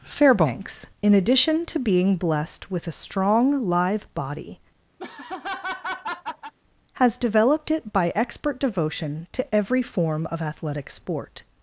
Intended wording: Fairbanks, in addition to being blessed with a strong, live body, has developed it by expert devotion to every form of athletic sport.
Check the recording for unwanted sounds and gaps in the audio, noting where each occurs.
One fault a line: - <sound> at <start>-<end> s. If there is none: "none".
- laugh at 5.0-6.5 s